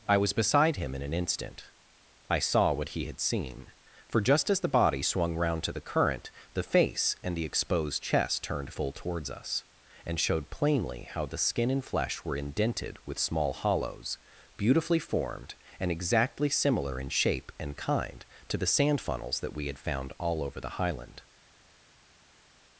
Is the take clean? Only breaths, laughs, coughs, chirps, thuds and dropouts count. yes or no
yes